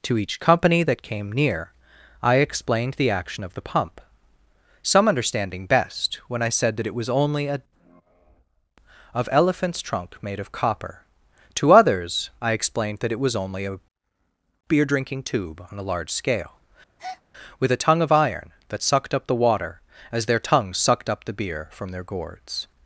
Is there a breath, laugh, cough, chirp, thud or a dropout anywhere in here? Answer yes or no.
yes